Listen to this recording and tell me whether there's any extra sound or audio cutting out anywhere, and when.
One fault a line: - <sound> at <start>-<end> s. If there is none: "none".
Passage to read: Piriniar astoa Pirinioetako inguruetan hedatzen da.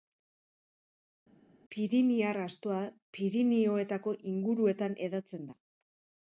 none